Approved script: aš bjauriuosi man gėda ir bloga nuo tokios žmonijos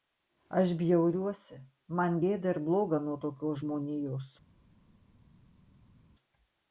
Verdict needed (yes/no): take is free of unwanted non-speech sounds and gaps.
yes